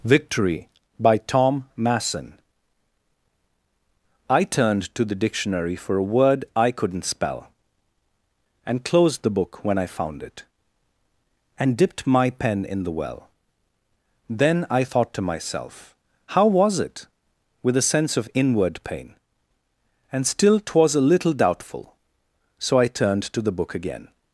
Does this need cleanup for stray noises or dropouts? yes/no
no